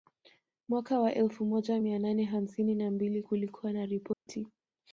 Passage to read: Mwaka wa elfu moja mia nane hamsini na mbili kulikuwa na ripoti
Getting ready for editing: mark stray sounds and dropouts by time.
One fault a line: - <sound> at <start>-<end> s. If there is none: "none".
- dropout at 4.1-4.3 s